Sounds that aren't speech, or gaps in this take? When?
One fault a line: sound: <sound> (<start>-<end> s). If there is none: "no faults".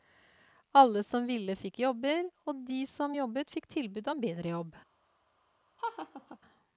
sound: laugh (5.8-6.4 s)